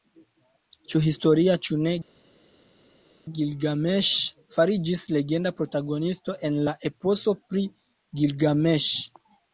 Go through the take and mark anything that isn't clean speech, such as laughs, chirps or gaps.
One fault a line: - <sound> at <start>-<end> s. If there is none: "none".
none